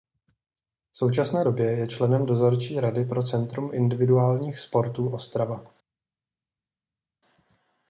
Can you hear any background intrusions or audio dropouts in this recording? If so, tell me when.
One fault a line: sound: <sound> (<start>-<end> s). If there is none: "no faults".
no faults